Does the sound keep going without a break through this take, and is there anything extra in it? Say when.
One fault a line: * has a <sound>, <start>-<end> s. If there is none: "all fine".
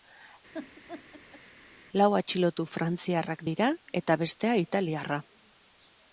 * has a laugh, 0.5-1.4 s